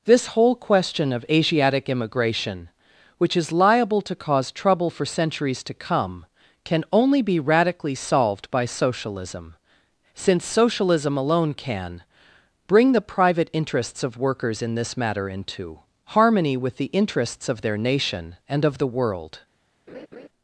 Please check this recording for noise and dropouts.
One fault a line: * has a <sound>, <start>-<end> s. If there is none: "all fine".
* has a laugh, 19.9-20.3 s